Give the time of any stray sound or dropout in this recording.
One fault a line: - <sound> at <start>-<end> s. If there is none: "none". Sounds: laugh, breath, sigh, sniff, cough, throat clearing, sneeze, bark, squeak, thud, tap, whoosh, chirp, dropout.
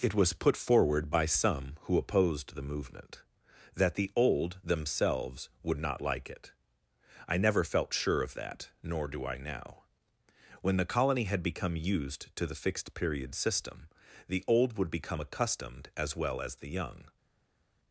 none